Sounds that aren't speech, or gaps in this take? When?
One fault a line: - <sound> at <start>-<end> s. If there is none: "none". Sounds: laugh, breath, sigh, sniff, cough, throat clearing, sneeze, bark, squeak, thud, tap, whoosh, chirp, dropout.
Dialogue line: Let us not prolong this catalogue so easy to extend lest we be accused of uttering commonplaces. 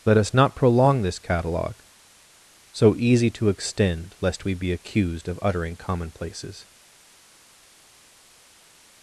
none